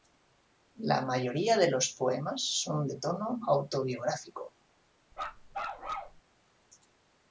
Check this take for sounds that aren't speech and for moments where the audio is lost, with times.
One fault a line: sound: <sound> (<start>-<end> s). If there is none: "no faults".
sound: bark (5.1-6.2 s)